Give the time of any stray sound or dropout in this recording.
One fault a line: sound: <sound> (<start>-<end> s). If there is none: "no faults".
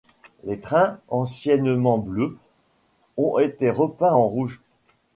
no faults